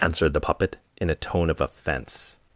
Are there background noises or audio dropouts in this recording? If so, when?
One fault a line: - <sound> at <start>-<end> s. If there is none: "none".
none